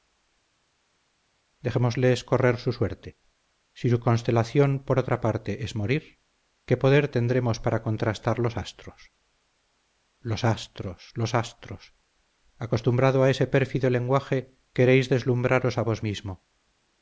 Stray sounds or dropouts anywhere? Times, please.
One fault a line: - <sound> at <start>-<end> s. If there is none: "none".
none